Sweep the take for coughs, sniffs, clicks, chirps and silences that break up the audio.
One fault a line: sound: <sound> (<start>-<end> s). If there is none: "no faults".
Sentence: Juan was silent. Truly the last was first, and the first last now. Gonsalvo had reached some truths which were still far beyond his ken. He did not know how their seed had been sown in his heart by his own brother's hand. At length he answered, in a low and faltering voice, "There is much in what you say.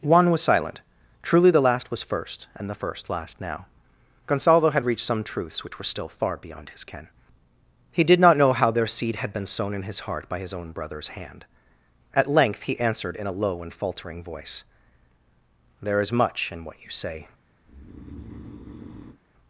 sound: breath (17.6-19.2 s)